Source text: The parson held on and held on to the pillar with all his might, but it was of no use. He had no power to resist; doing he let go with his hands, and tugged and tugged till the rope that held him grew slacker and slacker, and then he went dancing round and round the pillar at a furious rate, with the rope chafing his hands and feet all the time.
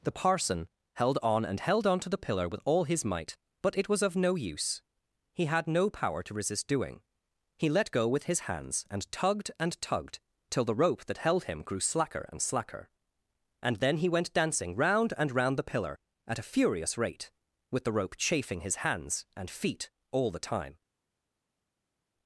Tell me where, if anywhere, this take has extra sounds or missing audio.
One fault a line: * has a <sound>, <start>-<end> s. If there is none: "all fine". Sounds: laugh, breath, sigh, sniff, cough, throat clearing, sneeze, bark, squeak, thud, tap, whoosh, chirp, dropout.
all fine